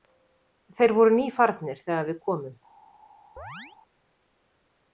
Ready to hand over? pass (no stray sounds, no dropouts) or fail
fail